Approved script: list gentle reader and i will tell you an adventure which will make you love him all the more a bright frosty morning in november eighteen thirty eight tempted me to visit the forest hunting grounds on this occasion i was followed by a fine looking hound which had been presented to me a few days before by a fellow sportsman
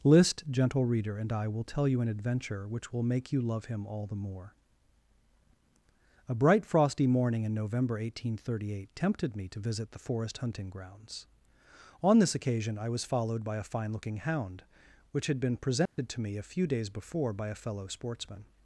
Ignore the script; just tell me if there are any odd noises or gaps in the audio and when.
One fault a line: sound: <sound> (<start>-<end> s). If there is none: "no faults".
sound: dropout (15.9-16.0 s)